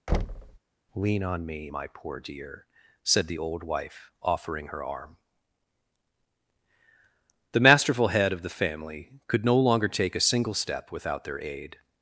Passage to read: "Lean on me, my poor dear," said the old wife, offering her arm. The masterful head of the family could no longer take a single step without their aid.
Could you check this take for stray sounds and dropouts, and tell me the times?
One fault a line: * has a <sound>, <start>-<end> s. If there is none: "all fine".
* has a thud, 0.1-0.6 s